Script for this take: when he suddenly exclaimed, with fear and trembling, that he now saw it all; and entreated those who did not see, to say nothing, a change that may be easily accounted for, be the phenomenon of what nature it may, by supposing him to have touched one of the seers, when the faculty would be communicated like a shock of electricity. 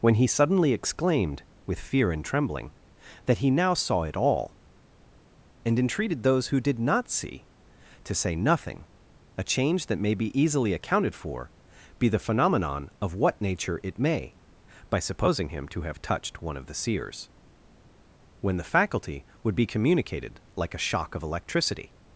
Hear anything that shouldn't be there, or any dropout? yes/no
no